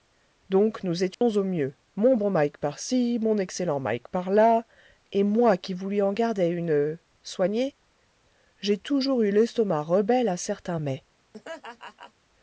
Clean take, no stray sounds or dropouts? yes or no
no